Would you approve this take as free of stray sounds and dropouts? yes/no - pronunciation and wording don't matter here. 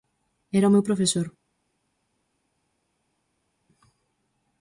yes